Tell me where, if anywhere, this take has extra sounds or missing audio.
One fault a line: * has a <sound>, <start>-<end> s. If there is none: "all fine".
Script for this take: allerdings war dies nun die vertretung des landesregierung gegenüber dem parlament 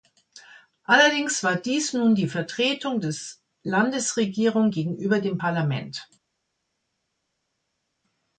all fine